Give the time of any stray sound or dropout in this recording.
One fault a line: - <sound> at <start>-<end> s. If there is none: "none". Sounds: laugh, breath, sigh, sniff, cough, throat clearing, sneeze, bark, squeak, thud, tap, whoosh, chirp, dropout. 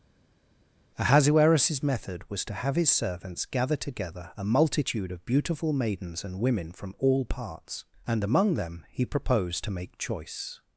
none